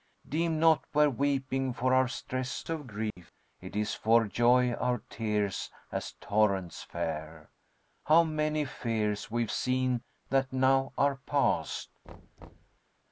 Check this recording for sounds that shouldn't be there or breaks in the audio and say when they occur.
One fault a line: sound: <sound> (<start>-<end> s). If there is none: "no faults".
sound: dropout (3.1-3.2 s)
sound: thud (12.0-12.8 s)